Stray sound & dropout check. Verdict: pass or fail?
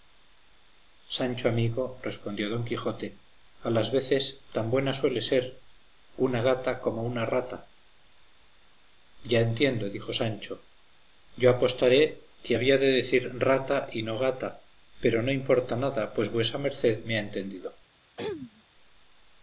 fail